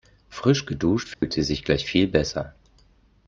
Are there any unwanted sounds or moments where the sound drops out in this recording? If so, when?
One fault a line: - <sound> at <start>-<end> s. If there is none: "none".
- dropout at 1.1-1.2 s